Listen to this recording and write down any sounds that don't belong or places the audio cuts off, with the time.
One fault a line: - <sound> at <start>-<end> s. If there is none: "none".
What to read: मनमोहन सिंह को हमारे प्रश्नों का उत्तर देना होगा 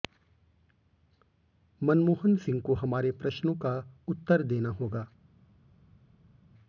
none